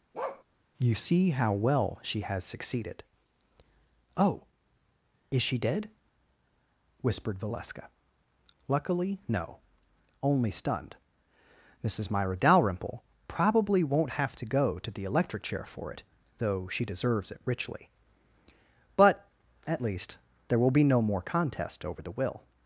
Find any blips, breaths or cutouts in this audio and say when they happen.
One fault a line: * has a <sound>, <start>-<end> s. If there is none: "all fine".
* has a bark, 0.1-0.4 s